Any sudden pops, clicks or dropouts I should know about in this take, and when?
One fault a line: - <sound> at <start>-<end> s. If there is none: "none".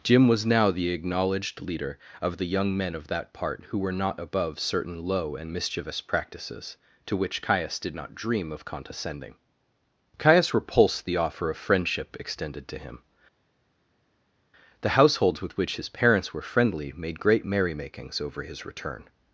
none